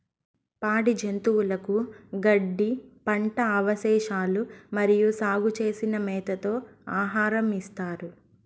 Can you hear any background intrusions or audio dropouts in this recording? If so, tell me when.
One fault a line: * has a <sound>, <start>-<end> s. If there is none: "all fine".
all fine